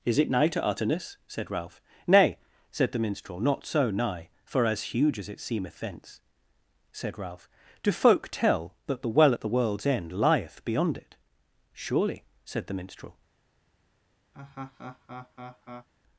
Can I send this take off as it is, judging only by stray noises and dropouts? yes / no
no